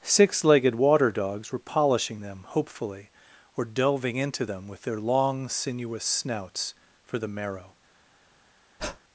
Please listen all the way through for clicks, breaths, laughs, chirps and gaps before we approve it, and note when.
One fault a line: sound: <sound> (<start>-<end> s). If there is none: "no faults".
sound: breath (8.8-9.0 s)